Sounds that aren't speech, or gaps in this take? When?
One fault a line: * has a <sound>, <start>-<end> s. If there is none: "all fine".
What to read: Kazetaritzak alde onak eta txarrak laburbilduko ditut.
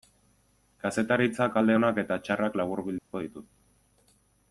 * has a dropout, 3.0-3.1 s